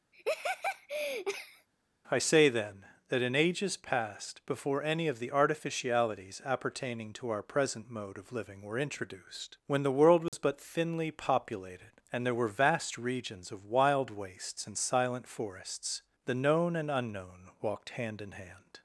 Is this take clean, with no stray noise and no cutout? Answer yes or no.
no